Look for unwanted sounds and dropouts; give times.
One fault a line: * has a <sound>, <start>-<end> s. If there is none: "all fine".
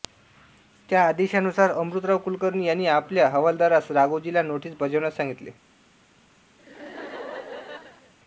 * has a laugh, 6.6-8.1 s